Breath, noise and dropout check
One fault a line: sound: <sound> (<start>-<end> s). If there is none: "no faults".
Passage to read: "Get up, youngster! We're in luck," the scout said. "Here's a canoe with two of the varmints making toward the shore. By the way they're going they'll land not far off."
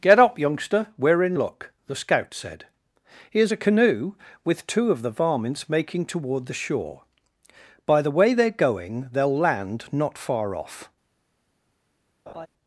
sound: laugh (12.3-12.5 s)